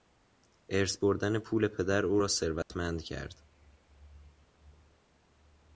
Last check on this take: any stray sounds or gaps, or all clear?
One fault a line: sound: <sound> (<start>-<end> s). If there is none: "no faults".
sound: dropout (2.6-2.7 s)